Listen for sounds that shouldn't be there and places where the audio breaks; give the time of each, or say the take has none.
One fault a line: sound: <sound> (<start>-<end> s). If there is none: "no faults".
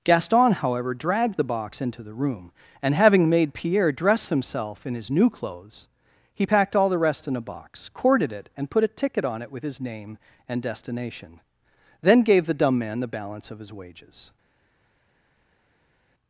no faults